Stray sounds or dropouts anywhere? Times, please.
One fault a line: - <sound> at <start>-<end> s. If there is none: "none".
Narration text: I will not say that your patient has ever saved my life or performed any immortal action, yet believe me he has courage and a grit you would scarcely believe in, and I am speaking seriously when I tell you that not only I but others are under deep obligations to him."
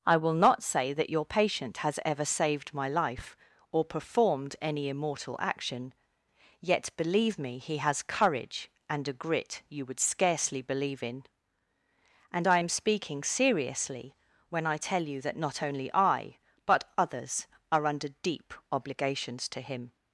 none